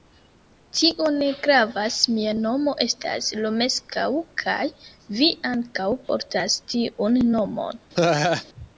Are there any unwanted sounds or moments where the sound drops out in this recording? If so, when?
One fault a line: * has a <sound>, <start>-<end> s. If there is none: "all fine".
* has a laugh, 7.9-8.4 s